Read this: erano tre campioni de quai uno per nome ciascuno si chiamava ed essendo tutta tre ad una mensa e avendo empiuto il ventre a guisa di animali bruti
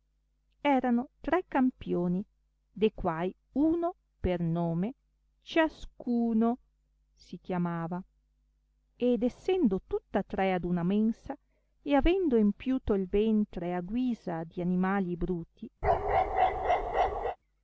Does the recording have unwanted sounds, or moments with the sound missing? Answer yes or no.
yes